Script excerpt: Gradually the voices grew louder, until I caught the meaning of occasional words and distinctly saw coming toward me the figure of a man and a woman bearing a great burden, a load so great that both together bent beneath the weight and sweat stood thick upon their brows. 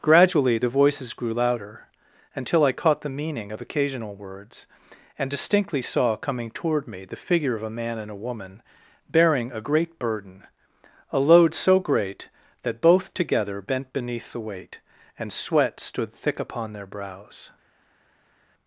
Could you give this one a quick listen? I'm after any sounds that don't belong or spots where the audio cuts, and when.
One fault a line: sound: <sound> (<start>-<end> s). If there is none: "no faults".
no faults